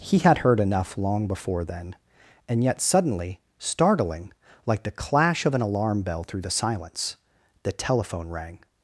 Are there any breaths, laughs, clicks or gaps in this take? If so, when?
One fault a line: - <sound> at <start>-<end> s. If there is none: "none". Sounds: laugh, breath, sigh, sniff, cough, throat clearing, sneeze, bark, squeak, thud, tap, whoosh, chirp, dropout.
none